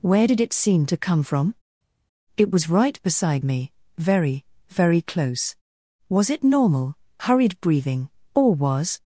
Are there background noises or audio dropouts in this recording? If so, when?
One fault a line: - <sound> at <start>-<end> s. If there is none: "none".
none